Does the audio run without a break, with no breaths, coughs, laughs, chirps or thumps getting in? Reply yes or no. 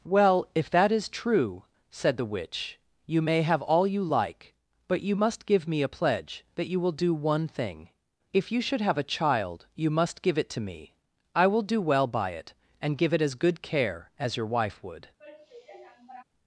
no